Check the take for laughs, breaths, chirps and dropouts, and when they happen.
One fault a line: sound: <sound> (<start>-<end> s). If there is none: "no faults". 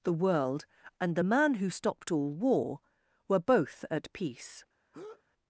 sound: breath (4.9-5.2 s)